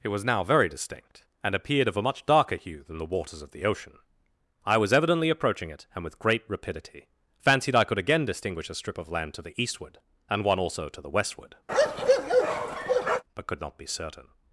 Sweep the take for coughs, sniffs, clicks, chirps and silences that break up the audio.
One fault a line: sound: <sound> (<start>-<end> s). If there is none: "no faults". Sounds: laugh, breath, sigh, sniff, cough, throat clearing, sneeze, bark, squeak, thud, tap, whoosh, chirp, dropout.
sound: bark (11.7-13.2 s)